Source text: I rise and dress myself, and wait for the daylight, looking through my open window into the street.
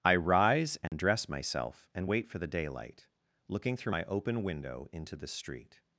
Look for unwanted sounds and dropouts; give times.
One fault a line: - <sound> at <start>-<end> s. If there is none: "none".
- dropout at 0.9-0.9 s